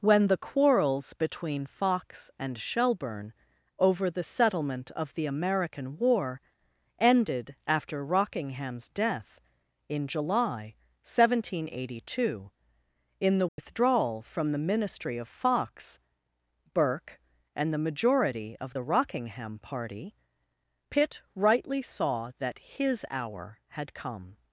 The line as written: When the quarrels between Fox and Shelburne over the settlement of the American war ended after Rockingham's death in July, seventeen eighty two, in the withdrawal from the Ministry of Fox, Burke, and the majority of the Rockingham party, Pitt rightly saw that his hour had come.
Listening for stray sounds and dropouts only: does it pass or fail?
fail